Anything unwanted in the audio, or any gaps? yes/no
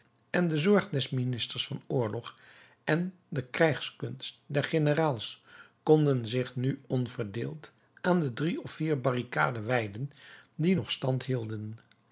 no